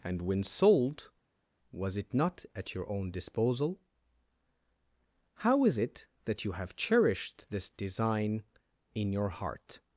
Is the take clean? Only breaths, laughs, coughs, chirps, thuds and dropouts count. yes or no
yes